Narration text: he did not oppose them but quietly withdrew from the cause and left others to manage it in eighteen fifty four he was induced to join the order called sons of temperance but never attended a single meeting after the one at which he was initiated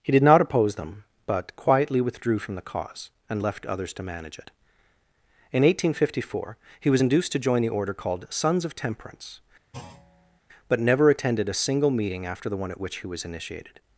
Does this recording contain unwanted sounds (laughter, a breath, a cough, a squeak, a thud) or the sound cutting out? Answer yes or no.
yes